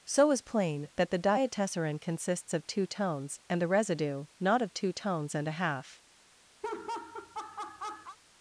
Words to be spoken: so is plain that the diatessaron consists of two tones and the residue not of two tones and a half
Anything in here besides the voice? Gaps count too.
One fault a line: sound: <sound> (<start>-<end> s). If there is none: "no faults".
sound: laugh (6.6-8.2 s)